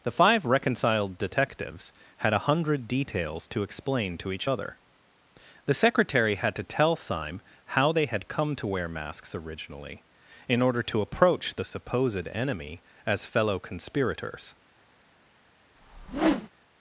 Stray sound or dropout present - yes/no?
yes